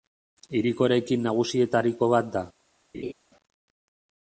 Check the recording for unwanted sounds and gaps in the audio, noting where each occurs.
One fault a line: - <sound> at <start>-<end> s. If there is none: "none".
- laugh at 2.9-3.1 s